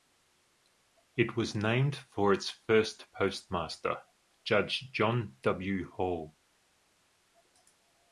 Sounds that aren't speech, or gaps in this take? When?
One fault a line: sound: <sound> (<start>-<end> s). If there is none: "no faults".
no faults